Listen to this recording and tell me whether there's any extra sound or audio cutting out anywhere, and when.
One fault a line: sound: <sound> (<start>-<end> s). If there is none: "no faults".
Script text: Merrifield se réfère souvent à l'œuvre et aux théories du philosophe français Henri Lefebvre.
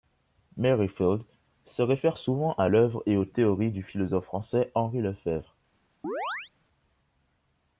sound: chirp (6.0-6.5 s)